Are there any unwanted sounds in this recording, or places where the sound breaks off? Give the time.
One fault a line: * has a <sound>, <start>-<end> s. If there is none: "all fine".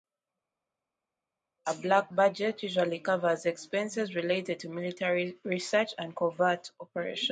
all fine